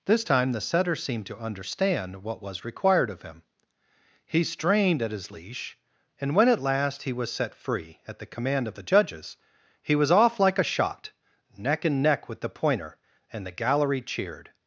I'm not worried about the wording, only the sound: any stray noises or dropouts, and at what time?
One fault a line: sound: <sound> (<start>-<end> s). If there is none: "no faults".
no faults